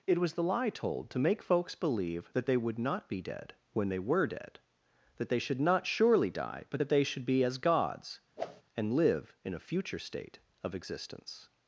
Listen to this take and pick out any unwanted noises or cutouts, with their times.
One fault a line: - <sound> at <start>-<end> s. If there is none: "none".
- whoosh at 8.4-8.6 s